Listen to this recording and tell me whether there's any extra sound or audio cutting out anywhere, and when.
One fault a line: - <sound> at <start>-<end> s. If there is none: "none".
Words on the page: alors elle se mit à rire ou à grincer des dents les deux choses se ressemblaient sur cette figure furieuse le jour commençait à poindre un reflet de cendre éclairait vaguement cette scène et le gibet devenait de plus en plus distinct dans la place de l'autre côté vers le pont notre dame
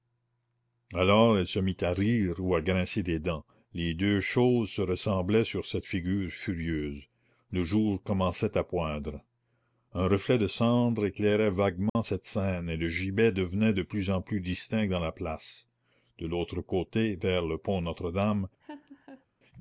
- dropout at 11.9-12.0 s
- laugh at 18.6-19.3 s